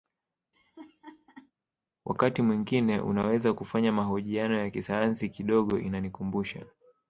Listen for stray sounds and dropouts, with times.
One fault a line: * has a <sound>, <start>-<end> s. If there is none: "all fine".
* has a laugh, 0.5-1.5 s